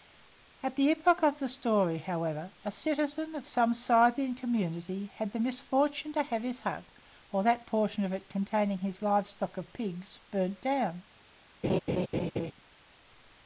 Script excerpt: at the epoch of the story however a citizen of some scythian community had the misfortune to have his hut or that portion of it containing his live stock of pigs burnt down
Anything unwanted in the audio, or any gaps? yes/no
yes